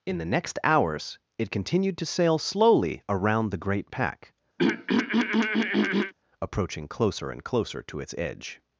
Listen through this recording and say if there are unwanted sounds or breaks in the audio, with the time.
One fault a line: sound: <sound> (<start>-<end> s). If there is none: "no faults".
sound: throat clearing (4.6-6.1 s)